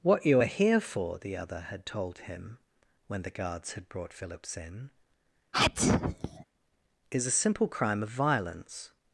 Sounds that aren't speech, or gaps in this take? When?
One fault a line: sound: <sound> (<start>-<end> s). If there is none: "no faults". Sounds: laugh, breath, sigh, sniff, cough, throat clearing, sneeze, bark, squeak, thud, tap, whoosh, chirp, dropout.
sound: sneeze (5.5-6.4 s)